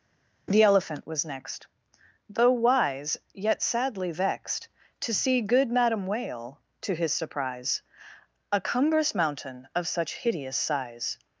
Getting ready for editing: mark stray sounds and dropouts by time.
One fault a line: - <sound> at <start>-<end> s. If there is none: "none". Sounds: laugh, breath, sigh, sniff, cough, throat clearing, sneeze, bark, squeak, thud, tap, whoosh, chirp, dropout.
none